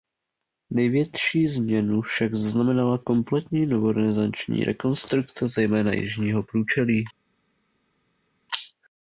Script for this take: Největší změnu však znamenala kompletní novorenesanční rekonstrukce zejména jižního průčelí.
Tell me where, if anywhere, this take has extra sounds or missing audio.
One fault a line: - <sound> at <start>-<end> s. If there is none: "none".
none